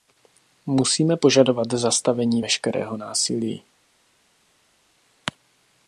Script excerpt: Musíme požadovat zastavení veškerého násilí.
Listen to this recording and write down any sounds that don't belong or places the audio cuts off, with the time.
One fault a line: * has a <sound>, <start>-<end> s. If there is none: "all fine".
all fine